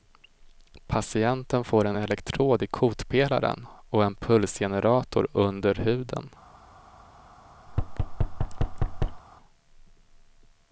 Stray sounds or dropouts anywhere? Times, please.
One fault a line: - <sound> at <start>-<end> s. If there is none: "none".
- thud at 7.7-9.2 s